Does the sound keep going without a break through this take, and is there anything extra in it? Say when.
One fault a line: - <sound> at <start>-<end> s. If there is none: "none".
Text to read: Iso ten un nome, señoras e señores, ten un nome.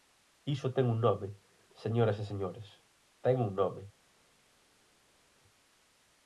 none